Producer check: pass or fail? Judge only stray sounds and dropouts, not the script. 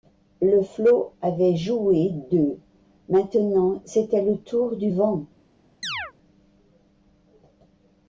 fail